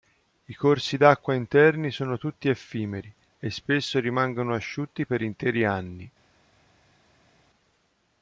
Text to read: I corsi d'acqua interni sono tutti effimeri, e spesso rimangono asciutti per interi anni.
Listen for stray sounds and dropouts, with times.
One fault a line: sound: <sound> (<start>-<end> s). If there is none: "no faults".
no faults